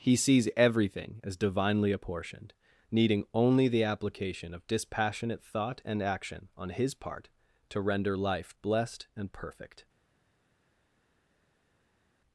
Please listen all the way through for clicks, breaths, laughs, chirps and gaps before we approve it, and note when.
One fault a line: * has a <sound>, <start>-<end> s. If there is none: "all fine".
all fine